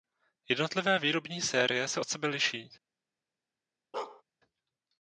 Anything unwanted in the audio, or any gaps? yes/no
yes